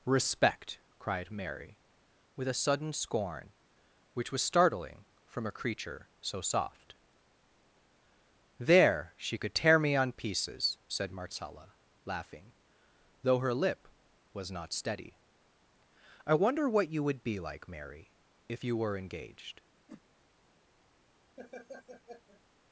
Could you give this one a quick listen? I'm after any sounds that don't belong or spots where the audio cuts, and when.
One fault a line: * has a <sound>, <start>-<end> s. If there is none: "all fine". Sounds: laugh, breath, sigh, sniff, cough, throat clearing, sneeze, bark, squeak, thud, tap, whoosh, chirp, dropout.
* has a whoosh, 19.9-20.0 s
* has a laugh, 21.4-22.4 s